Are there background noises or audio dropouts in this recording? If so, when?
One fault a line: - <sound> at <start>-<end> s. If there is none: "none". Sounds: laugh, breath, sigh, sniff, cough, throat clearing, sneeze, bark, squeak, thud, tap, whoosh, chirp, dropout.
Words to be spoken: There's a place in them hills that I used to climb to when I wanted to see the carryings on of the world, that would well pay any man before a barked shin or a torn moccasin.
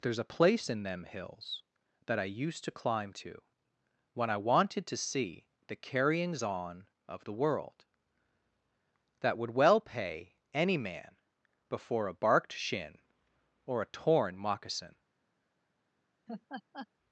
- laugh at 16.3-16.9 s